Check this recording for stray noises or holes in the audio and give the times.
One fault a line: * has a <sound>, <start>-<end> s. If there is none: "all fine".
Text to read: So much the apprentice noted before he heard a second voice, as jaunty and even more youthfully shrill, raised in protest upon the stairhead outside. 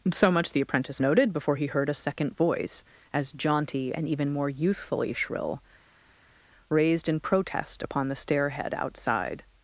all fine